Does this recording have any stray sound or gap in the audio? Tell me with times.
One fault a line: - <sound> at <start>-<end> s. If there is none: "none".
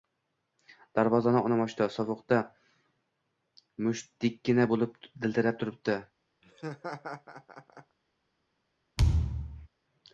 - laugh at 6.4-8.0 s
- thud at 9.0-9.7 s